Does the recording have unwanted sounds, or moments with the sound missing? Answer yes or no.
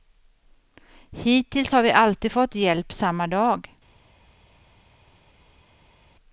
no